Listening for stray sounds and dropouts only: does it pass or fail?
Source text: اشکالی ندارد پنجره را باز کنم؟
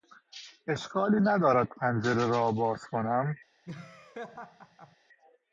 fail